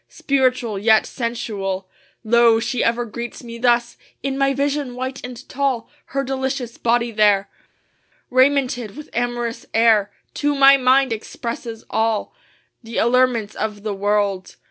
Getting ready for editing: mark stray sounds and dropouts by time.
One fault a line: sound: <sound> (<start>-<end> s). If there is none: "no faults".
no faults